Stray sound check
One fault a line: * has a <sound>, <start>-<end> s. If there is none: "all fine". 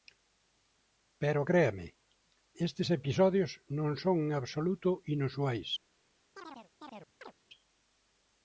* has a chirp, 6.4-7.3 s